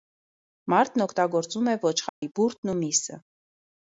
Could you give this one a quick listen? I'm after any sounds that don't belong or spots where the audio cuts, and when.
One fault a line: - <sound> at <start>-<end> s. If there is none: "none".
- dropout at 2.1-2.2 s